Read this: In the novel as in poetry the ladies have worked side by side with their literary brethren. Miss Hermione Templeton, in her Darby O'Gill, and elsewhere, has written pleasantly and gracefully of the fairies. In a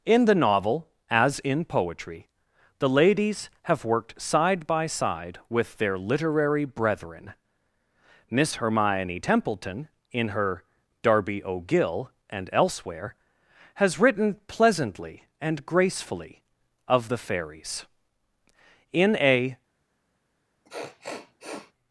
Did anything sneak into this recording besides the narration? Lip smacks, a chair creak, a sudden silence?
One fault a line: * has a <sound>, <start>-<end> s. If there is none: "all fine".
* has a sniff, 20.6-21.7 s